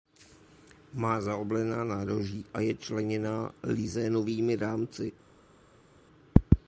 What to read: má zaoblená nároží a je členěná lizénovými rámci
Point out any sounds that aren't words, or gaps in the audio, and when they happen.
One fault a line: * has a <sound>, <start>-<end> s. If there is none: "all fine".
all fine